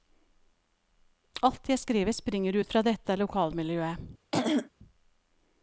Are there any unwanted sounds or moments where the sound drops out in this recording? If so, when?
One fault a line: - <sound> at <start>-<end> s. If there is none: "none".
- throat clearing at 4.3-4.7 s